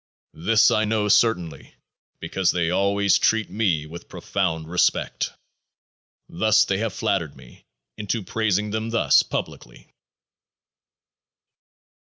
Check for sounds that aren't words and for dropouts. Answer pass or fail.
pass